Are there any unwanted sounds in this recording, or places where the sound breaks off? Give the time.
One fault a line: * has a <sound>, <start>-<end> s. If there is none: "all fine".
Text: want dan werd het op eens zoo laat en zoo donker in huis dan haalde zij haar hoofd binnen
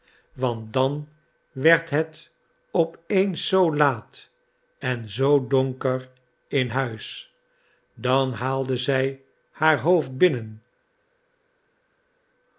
all fine